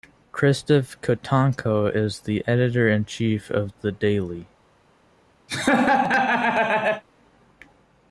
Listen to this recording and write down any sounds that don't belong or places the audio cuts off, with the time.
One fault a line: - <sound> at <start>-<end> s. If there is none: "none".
- laugh at 5.5-7.0 s